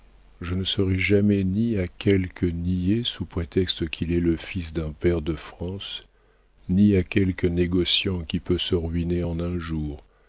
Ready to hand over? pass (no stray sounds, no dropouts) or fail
pass